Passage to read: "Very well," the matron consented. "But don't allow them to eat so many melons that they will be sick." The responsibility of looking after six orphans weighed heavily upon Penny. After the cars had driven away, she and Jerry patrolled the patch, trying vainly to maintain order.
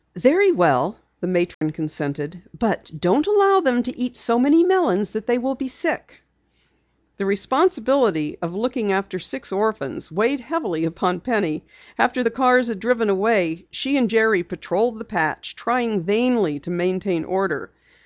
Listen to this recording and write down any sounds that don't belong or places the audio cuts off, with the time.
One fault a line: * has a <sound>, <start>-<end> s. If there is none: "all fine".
* has a dropout, 1.5-1.6 s